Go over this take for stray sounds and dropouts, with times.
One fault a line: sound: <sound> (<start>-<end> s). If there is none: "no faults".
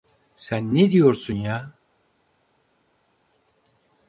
no faults